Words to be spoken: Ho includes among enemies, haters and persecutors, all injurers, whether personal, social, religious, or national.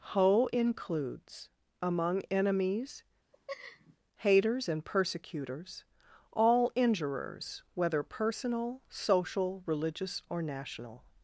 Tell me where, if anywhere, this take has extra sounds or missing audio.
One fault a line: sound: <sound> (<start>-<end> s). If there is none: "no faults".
sound: laugh (3.3-4.0 s)